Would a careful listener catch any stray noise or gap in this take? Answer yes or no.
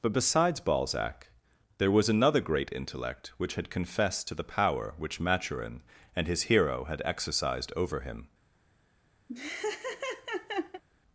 yes